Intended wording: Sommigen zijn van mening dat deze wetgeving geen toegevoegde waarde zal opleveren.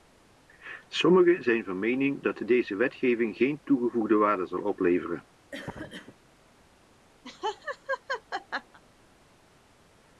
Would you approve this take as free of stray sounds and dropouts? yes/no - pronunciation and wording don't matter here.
no